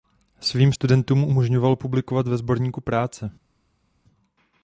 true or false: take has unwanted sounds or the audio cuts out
false